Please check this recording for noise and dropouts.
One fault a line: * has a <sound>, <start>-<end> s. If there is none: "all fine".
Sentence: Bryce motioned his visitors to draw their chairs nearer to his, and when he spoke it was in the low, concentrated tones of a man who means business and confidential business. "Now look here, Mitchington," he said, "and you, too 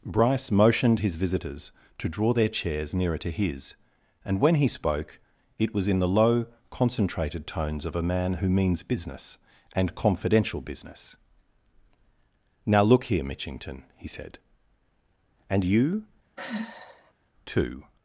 * has a sigh, 16.4-17.1 s